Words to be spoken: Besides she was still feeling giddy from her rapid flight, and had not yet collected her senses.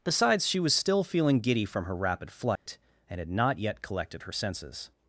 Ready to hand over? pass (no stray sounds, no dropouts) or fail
fail